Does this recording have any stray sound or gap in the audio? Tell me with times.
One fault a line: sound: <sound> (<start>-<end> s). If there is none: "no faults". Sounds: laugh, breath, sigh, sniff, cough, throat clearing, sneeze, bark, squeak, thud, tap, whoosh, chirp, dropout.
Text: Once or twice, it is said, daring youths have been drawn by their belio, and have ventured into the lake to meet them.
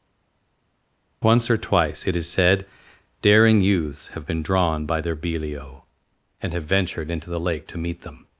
no faults